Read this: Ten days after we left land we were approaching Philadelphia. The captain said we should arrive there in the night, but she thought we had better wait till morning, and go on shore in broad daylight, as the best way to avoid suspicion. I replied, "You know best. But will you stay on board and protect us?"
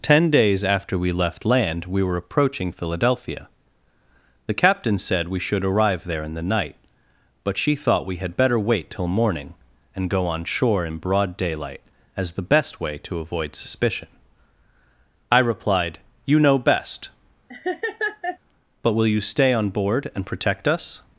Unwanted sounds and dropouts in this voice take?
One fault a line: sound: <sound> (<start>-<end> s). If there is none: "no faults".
sound: laugh (17.5-18.4 s)